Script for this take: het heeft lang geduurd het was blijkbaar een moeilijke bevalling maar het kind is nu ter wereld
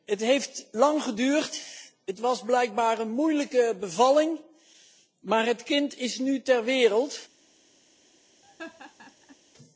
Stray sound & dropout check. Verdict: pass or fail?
fail